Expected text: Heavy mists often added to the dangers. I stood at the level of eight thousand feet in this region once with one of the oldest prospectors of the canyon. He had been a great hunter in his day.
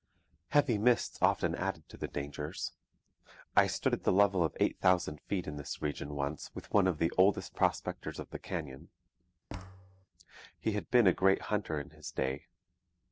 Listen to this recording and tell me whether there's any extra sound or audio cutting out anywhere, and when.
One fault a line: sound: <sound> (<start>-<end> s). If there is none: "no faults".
sound: thud (9.5-10.1 s)